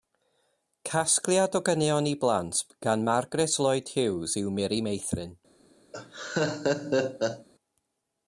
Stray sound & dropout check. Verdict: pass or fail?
fail